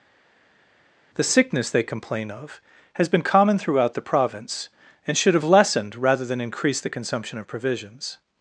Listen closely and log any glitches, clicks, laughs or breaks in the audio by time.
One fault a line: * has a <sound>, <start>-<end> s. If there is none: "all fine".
all fine